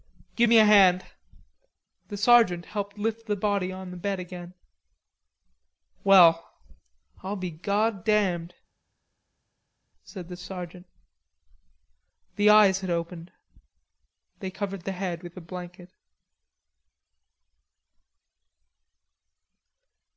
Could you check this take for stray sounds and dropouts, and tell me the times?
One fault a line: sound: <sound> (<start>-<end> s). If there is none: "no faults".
no faults